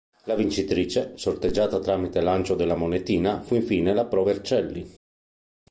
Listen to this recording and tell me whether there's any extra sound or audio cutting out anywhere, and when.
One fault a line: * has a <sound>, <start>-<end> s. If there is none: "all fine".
all fine